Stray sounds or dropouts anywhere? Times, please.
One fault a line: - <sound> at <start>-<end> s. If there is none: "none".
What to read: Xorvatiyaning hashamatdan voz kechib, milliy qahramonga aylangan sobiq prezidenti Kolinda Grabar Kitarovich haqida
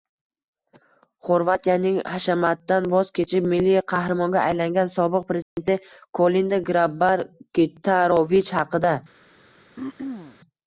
- dropout at 5.4-5.6 s
- throat clearing at 9.8-10.4 s